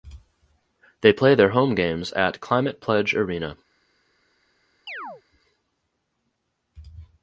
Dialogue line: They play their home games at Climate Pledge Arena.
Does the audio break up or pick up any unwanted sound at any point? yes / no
yes